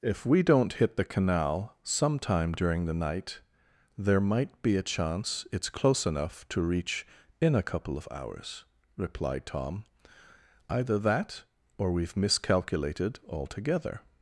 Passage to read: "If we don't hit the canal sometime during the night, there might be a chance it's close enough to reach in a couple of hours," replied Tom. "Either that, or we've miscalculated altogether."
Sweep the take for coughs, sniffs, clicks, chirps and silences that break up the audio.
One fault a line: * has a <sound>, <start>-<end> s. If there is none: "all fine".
all fine